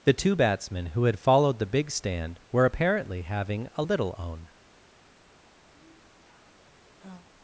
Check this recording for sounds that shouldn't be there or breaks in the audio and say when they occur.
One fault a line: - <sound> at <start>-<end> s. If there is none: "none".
- sigh at 5.7-7.3 s